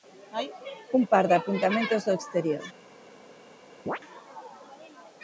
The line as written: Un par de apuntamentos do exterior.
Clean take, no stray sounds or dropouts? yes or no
no